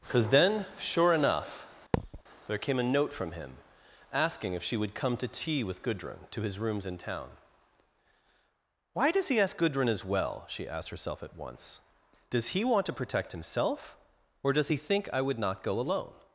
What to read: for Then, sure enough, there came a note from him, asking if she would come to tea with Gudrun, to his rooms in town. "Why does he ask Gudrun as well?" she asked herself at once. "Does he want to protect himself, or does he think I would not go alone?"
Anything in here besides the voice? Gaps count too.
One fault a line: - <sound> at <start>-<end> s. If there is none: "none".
- thud at 1.9-2.2 s